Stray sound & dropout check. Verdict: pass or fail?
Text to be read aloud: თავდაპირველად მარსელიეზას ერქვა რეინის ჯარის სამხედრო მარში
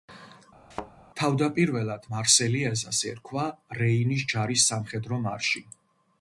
fail